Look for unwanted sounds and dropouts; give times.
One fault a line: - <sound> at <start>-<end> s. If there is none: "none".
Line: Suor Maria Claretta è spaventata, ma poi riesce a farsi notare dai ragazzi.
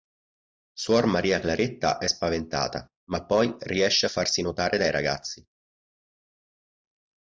none